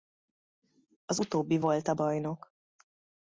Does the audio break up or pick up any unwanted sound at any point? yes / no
no